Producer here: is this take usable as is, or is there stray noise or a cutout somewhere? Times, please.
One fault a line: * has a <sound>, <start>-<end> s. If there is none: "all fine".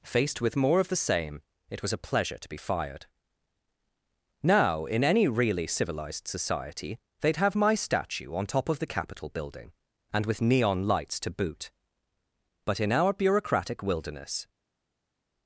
all fine